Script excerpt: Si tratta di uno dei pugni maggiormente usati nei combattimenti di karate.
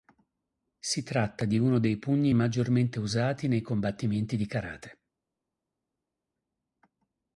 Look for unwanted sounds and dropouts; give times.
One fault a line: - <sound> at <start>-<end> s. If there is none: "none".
none